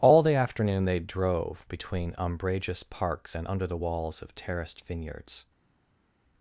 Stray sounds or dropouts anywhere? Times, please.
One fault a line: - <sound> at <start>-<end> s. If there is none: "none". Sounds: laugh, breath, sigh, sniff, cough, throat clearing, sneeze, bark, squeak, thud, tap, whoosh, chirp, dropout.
none